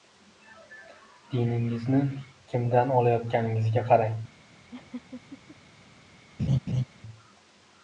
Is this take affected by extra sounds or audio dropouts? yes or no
yes